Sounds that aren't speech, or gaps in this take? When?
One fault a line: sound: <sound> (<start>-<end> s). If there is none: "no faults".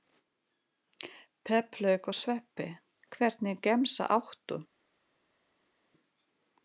no faults